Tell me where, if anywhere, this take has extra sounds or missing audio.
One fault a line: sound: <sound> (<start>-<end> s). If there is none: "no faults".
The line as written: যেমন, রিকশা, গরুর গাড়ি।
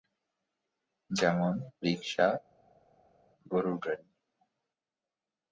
no faults